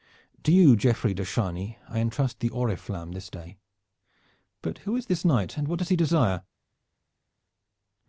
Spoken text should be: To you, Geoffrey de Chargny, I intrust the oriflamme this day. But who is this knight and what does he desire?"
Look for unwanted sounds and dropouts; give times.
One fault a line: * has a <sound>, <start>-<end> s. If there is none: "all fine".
all fine